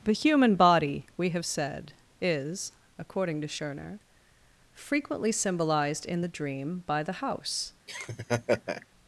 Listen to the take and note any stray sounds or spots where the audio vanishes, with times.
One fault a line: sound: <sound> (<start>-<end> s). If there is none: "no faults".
sound: laugh (7.9-8.9 s)